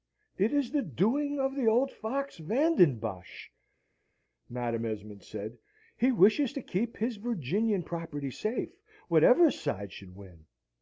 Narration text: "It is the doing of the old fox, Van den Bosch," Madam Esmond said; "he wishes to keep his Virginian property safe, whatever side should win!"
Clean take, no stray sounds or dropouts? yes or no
yes